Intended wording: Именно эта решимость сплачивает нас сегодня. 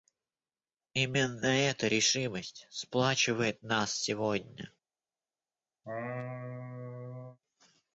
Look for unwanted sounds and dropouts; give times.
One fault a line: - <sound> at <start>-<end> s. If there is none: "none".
- laugh at 5.8-7.4 s